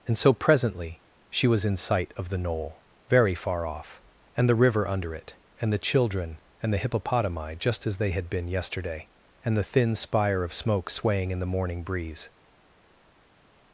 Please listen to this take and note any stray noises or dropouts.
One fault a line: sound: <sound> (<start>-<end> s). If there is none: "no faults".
no faults